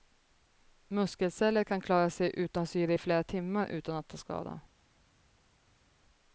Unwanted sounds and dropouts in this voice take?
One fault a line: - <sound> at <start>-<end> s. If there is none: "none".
none